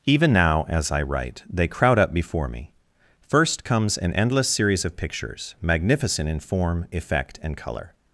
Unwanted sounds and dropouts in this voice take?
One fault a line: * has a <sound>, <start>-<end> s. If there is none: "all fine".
all fine